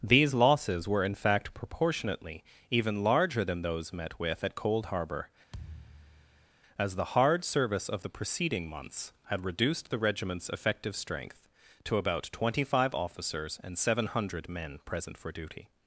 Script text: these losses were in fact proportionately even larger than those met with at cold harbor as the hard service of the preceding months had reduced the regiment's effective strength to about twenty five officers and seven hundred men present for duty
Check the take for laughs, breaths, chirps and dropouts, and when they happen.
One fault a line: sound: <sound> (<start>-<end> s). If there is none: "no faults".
sound: thud (5.5-6.5 s)